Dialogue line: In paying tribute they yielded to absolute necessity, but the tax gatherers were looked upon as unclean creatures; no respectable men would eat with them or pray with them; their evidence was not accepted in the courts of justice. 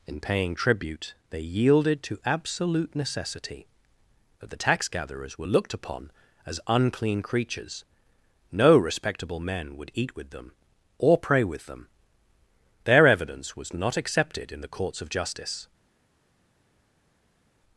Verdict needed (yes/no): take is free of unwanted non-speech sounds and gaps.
yes